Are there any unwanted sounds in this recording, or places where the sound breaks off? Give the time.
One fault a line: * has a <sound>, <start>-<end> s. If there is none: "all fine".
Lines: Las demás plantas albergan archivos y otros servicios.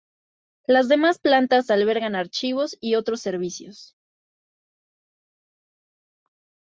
all fine